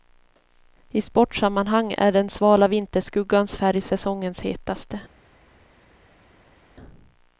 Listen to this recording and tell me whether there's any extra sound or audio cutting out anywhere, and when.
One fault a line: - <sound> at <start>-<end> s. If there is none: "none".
none